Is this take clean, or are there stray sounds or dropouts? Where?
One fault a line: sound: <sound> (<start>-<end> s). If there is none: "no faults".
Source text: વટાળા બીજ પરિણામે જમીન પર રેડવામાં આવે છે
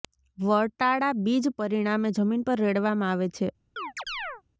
sound: chirp (3.8-4.4 s)